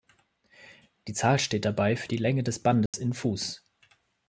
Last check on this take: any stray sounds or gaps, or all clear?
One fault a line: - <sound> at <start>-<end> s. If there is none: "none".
- dropout at 2.9-2.9 s